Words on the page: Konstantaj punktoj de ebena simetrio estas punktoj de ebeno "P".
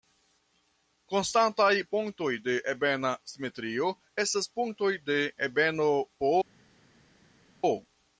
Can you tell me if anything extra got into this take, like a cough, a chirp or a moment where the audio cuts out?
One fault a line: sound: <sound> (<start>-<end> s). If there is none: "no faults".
no faults